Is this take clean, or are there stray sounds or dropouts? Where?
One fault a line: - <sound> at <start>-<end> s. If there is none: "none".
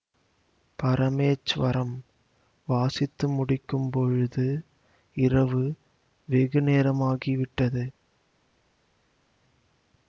none